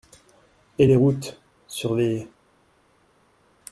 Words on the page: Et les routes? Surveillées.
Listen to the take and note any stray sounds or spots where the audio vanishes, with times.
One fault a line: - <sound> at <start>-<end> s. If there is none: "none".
none